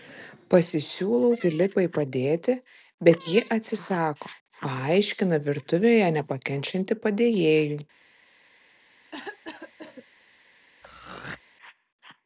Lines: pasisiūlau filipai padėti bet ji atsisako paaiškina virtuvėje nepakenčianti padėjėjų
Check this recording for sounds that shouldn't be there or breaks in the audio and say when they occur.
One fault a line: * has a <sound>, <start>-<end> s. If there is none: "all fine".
* has a cough, 9.1-10.0 s
* has a throat clearing, 10.8-11.4 s